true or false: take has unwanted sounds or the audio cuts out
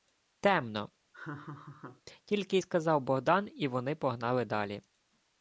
true